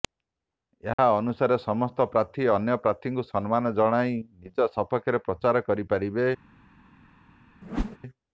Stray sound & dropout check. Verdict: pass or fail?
fail